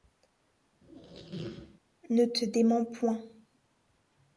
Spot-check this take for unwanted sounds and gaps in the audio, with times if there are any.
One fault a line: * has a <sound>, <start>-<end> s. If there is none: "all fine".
* has a squeak, 0.8-1.8 s